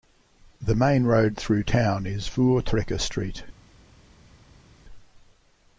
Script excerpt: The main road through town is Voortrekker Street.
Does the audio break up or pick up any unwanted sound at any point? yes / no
no